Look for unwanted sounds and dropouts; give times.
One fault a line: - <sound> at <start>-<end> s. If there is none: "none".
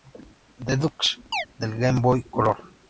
- chirp at 1.3-1.5 s